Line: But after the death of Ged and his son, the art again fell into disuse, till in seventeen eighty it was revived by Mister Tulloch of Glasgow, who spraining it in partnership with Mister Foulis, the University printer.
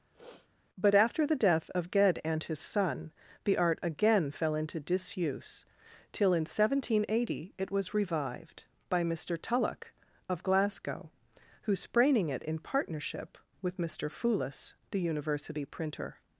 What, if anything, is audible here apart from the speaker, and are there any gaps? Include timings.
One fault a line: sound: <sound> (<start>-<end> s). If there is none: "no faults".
sound: sniff (0.1-0.5 s)